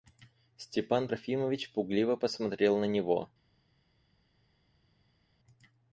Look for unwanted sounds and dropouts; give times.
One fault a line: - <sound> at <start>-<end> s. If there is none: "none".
none